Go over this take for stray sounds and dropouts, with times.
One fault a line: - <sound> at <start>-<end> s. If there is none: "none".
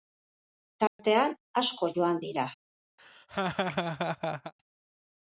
- dropout at 0.9-1.0 s
- laugh at 3.0-4.5 s